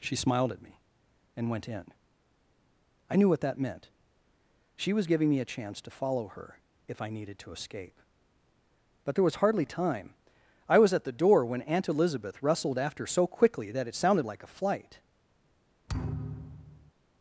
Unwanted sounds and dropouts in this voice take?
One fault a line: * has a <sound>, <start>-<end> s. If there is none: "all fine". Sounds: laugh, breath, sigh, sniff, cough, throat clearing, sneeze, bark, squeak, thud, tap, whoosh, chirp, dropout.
* has a thud, 15.9-16.9 s